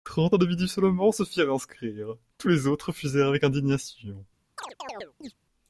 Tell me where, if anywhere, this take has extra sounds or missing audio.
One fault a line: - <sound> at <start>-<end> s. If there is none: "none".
- chirp at 4.6-5.3 s